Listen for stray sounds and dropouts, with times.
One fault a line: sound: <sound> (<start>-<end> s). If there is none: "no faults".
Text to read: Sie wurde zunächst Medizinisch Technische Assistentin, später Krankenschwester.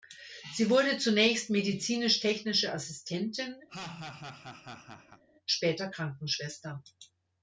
sound: laugh (3.7-5.2 s)